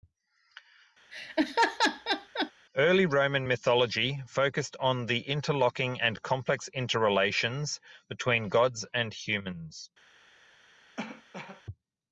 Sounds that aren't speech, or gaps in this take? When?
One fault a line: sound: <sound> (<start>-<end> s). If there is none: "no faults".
sound: laugh (1.1-2.5 s)
sound: cough (11.0-11.6 s)